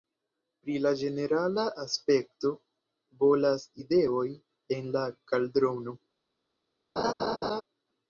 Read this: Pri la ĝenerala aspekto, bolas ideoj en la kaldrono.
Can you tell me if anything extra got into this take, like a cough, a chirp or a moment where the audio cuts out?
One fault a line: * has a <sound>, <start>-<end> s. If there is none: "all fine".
* has a laugh, 7.0-7.6 s